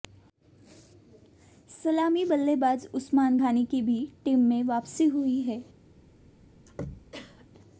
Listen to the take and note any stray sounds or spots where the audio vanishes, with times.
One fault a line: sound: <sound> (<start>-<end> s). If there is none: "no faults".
sound: throat clearing (6.7-7.5 s)